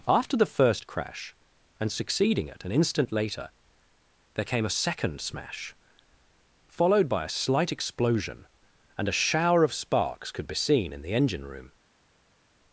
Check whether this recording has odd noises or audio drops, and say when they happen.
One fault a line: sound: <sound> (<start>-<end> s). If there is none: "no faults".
no faults